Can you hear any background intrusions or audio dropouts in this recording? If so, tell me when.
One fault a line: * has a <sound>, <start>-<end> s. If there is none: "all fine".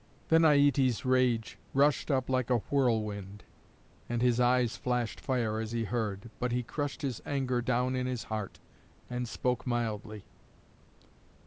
all fine